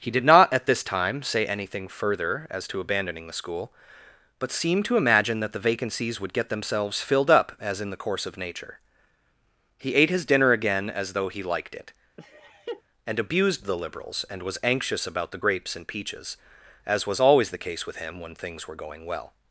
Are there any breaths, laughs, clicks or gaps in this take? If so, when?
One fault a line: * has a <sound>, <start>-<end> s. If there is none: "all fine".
* has a laugh, 12.2-12.8 s